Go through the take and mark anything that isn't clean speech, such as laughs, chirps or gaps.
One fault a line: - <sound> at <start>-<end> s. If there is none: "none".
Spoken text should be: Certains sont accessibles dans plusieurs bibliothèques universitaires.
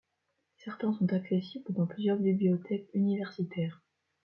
none